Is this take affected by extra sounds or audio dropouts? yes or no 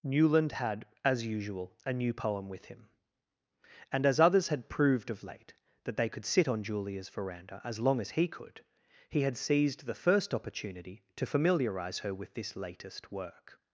no